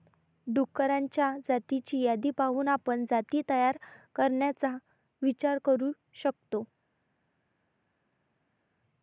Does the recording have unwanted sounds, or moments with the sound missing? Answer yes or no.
no